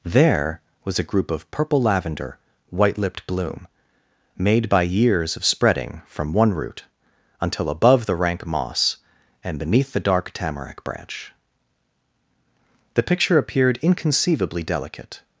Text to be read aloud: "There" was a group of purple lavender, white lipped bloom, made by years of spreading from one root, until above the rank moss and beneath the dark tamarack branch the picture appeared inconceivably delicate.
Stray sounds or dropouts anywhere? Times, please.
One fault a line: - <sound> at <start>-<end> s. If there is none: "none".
none